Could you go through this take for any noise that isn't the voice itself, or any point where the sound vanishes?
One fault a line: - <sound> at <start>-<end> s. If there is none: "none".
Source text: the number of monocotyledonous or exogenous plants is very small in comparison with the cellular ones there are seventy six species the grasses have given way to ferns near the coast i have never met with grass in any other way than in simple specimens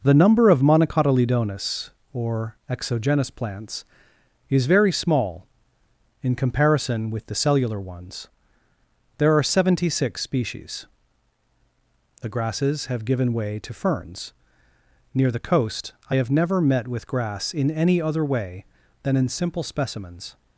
none